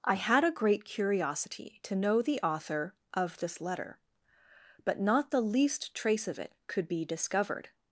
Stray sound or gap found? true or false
false